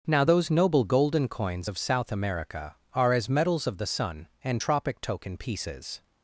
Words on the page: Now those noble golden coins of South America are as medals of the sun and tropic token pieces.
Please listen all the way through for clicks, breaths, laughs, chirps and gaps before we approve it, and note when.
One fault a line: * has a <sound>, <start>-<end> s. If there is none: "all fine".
all fine